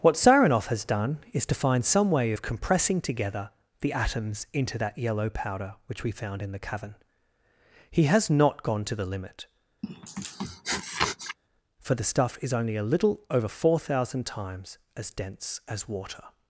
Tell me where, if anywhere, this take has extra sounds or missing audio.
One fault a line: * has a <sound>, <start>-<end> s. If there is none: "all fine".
* has a sniff, 9.8-11.4 s